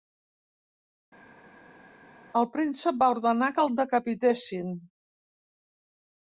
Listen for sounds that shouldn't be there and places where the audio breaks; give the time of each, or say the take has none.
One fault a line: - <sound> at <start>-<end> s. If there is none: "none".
none